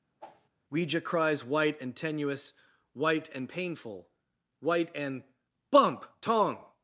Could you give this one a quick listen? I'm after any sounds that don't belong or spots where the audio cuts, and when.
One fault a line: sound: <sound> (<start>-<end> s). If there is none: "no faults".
sound: whoosh (0.2-0.5 s)